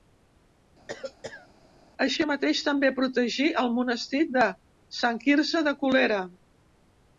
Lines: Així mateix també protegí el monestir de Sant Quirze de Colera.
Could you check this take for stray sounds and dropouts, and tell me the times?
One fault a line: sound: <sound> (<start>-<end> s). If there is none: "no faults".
sound: cough (0.9-1.5 s)